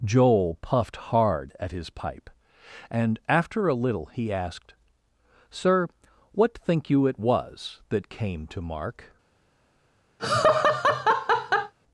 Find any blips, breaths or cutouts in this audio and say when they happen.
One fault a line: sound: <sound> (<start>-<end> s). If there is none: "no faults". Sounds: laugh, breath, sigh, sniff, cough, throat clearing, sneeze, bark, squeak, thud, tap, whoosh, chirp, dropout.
sound: laugh (10.2-11.7 s)